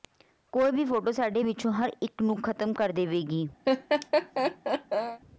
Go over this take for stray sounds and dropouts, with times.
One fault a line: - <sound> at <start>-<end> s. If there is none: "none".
- laugh at 3.7-5.2 s